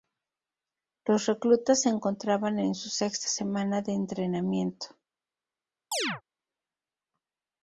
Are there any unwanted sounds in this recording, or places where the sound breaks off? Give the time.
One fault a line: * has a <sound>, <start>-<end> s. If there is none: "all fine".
* has a chirp, 5.9-6.2 s